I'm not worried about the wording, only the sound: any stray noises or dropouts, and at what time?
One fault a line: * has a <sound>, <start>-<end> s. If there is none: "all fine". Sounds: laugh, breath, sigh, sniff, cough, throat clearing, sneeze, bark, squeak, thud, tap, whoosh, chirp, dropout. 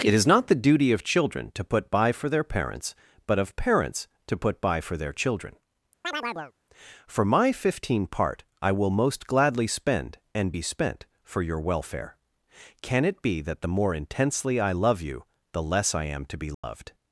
* has a chirp, 6.0-6.5 s
* has a dropout, 16.5-16.6 s